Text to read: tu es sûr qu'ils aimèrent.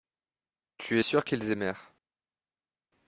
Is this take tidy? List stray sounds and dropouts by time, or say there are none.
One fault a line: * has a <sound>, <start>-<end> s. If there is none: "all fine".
all fine